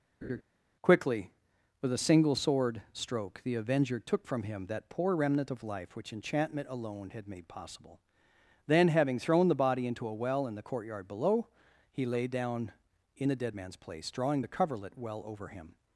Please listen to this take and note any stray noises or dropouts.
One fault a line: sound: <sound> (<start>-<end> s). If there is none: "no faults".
sound: laugh (0.2-0.4 s)